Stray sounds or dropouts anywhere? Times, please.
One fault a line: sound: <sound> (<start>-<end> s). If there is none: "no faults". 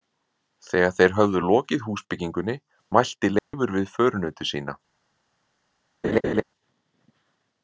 sound: dropout (3.4-3.5 s)
sound: laugh (6.0-6.4 s)